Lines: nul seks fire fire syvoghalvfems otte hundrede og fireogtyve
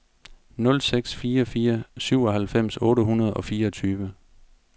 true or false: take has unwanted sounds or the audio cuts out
false